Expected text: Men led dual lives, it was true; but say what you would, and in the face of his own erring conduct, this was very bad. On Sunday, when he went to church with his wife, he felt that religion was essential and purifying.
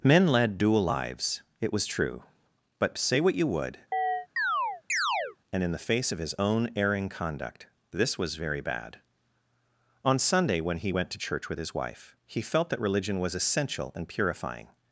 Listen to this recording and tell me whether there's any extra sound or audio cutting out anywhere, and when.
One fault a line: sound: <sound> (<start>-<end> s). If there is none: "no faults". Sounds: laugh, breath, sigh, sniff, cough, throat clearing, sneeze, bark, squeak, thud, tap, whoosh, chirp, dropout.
sound: chirp (3.9-5.4 s)